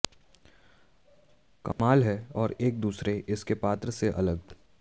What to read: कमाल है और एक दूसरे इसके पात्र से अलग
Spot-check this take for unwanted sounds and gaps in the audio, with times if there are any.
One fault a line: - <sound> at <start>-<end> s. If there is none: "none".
- dropout at 1.7-1.8 s